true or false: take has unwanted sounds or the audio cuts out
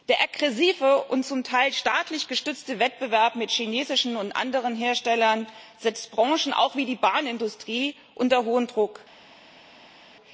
false